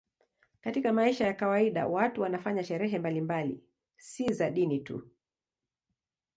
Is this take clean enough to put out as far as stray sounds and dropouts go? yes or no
yes